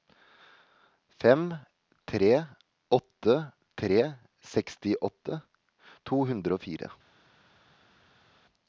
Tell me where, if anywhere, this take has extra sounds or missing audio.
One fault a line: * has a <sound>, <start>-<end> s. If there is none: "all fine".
all fine